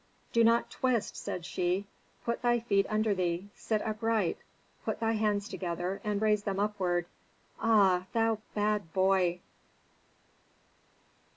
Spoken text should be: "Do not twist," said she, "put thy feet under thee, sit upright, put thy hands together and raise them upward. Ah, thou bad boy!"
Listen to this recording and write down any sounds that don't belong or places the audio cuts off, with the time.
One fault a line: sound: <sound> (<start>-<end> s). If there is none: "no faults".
no faults